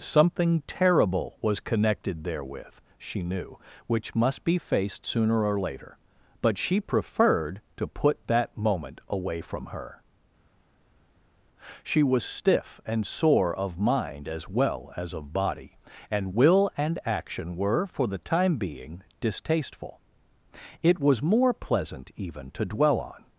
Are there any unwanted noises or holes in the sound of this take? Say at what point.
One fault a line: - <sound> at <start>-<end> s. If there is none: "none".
none